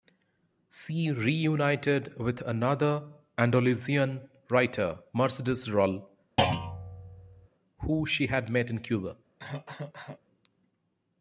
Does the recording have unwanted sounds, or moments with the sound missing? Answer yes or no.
yes